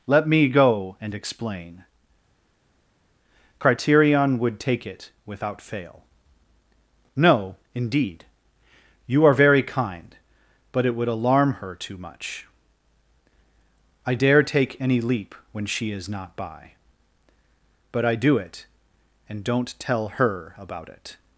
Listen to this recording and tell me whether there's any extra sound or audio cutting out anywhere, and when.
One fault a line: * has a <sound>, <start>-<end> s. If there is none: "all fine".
all fine